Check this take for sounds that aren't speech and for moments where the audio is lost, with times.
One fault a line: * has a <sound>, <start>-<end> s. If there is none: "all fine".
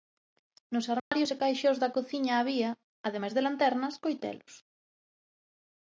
* has a dropout, 1.0-1.1 s